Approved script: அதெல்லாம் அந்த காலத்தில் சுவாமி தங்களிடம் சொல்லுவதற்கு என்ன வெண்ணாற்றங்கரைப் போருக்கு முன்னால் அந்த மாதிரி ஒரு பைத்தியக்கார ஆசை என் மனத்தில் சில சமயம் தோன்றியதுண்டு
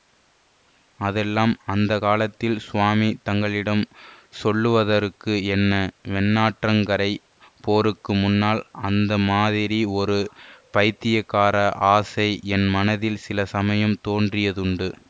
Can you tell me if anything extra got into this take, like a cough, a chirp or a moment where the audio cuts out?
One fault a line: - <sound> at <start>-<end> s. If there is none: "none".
none